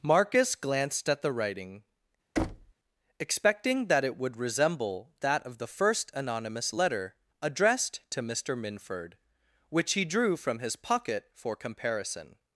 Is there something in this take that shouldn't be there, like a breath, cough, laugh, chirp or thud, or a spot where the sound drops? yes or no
yes